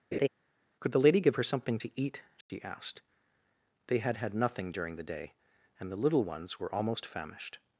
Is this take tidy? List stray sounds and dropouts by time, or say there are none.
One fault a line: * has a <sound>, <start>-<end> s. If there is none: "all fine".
* has a laugh, 0.1-0.3 s
* has a dropout, 2.4-2.5 s